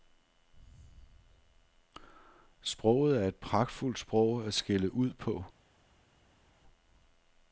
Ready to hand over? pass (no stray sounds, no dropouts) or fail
pass